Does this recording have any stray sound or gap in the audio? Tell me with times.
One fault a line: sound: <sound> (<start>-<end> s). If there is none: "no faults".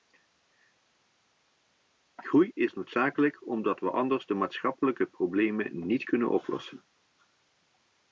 no faults